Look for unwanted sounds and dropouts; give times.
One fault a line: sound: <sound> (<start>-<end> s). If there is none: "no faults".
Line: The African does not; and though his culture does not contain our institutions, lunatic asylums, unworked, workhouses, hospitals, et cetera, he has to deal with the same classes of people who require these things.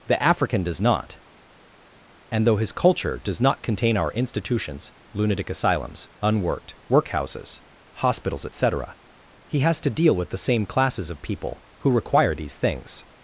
no faults